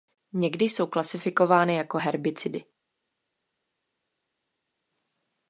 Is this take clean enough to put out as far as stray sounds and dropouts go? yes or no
yes